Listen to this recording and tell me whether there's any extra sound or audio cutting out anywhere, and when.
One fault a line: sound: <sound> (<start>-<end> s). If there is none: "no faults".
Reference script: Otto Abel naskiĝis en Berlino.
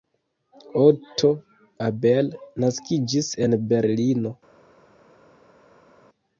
no faults